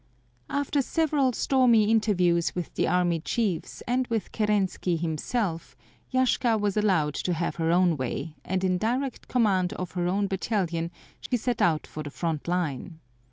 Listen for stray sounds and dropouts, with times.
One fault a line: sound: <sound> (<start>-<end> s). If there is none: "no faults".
sound: dropout (11.3-11.3 s)